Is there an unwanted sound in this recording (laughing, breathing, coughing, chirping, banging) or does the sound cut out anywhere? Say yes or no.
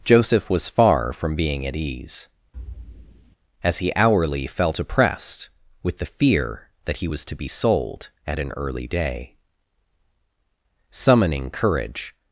yes